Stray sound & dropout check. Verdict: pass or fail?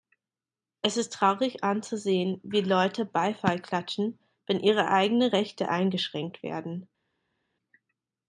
pass